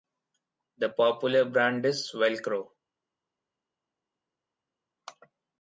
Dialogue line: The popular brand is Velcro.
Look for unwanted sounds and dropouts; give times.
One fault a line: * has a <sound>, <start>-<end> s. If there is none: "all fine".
all fine